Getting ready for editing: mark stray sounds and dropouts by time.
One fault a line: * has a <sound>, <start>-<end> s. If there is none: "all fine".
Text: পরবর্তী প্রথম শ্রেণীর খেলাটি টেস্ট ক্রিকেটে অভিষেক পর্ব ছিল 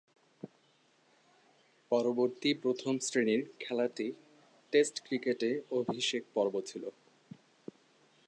all fine